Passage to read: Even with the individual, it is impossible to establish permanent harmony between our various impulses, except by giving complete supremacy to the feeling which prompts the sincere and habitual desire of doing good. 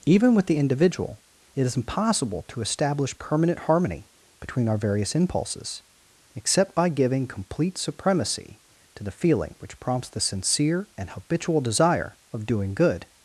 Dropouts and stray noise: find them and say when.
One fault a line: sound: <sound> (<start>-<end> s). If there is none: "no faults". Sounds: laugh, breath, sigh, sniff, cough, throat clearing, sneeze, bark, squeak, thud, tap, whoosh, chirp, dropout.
no faults